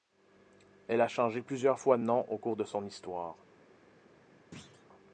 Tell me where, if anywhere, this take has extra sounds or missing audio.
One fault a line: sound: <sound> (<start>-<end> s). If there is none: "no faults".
sound: thud (4.5-4.9 s)